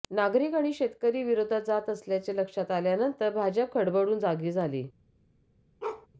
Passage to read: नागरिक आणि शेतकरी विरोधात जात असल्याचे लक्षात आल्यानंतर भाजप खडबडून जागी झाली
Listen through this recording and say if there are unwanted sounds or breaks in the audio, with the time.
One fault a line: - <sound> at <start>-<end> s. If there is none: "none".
- bark at 5.8-6.1 s